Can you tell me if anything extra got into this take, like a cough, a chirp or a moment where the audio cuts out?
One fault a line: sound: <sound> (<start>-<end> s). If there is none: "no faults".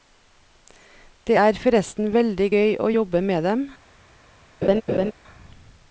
sound: laugh (4.6-5.1 s)